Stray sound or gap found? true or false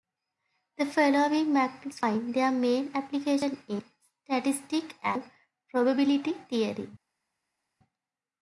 false